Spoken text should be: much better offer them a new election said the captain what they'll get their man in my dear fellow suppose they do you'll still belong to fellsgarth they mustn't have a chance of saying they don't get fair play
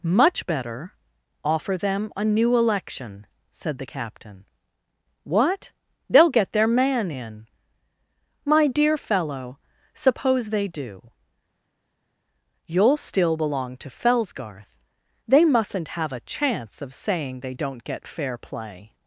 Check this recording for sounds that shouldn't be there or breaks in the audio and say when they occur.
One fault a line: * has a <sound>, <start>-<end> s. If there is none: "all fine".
all fine